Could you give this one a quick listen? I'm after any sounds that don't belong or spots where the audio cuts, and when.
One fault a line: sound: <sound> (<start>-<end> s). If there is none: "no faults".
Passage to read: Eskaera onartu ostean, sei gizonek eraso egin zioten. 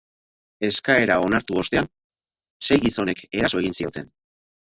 no faults